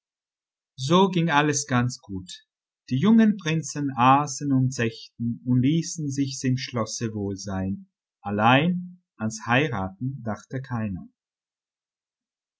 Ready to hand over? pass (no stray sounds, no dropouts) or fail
pass